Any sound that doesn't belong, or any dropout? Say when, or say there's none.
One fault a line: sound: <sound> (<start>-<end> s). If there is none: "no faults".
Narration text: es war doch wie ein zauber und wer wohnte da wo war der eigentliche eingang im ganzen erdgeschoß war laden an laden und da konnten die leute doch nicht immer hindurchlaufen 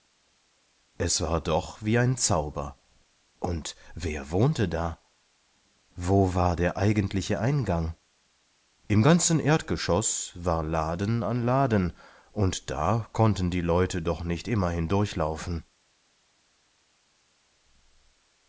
no faults